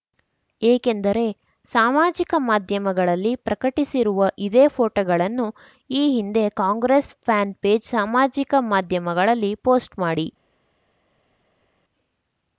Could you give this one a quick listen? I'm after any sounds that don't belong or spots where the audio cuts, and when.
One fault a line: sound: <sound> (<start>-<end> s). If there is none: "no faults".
no faults